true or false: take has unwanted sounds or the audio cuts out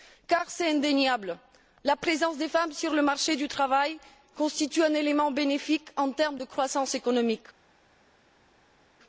false